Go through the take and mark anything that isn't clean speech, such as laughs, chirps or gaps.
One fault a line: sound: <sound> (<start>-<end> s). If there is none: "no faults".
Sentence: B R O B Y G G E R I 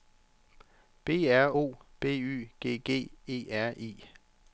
no faults